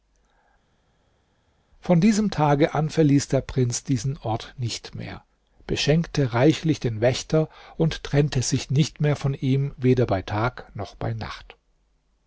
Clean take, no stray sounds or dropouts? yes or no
yes